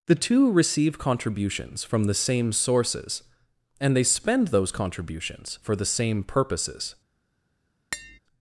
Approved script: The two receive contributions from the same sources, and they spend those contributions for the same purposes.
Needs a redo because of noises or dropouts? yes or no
yes